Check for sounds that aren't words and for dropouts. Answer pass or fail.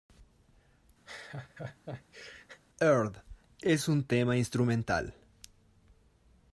fail